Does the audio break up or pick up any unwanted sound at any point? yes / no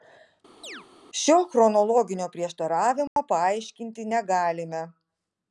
yes